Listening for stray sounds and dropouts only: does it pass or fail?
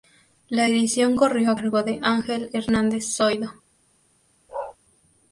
fail